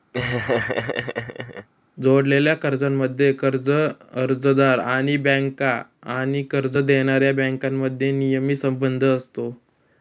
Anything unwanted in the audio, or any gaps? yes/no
yes